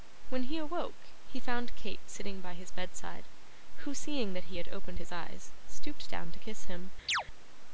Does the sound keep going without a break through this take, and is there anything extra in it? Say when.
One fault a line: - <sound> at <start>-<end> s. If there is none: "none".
- chirp at 7.1-7.2 s